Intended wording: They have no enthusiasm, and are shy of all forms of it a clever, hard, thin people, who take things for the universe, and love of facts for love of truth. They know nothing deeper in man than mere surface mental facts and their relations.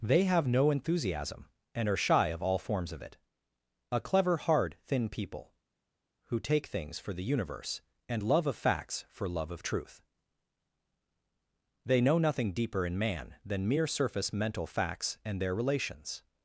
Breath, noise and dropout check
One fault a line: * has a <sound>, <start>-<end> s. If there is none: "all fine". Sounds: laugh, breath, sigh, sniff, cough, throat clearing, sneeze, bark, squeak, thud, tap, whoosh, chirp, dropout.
all fine